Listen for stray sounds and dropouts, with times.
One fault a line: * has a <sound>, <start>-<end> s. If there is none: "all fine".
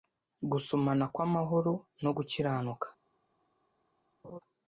* has a laugh, 4.2-4.4 s